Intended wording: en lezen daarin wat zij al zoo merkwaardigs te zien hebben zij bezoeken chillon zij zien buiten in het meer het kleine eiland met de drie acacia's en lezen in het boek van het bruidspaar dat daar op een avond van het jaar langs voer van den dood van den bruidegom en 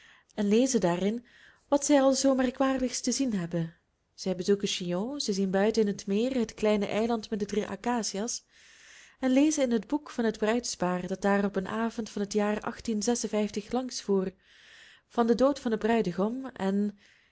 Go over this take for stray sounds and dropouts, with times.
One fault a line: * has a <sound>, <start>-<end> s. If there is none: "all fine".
all fine